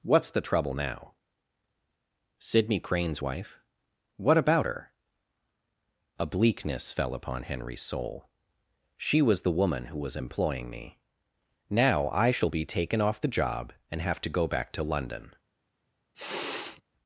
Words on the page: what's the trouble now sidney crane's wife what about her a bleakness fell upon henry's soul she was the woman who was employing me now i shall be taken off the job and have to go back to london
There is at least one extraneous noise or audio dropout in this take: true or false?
true